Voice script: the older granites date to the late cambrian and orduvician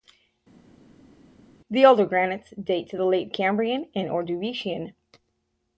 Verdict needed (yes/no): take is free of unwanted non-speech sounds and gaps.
yes